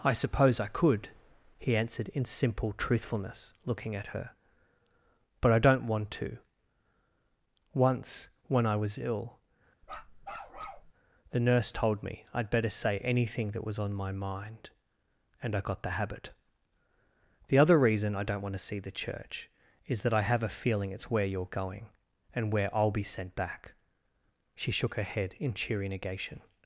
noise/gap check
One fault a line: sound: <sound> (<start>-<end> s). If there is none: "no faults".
sound: bark (9.8-10.9 s)